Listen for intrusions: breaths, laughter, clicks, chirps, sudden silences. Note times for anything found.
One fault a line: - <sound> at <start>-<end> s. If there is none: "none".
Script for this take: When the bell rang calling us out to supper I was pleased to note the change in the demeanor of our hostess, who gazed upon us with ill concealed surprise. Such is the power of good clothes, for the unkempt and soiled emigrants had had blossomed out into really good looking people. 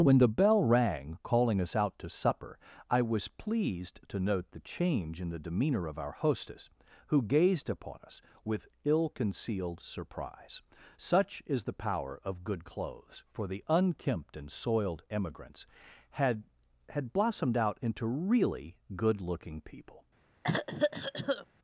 - cough at 20.4-21.5 s